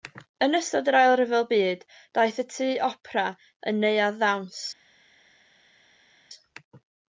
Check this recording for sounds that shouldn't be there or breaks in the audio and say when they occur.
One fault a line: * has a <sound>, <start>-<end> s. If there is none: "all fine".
all fine